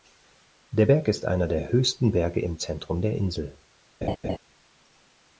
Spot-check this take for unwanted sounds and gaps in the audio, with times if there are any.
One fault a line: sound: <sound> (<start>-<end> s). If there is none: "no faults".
sound: laugh (4.0-4.4 s)